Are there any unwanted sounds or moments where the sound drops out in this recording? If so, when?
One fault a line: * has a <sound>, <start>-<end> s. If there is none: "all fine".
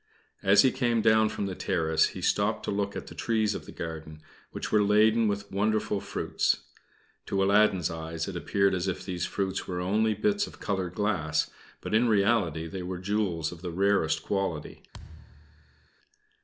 * has a thud, 14.9-15.9 s